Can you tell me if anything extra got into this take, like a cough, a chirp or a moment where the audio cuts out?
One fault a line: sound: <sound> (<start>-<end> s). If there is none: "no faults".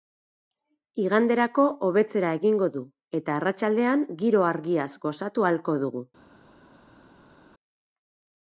no faults